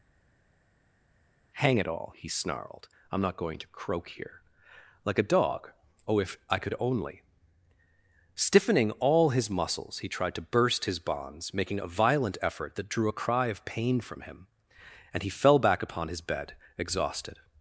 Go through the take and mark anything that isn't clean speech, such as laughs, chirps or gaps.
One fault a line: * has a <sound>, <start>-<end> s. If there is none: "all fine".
all fine